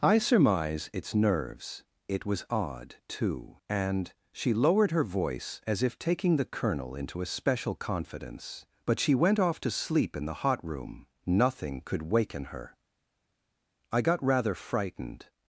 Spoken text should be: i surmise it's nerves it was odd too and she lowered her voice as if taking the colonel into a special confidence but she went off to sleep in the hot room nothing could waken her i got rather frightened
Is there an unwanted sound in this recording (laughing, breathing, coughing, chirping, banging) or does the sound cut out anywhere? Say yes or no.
no